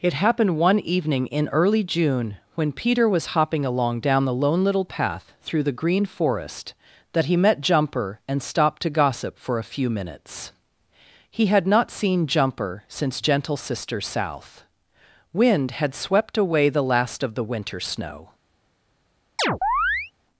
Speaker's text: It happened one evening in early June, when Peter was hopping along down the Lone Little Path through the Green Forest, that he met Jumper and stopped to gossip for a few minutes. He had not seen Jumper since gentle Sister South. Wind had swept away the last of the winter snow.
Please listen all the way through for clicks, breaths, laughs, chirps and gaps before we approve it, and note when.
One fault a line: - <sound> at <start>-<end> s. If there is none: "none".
- chirp at 19.4-20.1 s